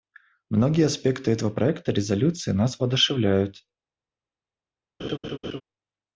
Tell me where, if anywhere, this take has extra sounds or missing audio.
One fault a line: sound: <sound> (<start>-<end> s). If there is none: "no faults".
sound: laugh (5.0-5.6 s)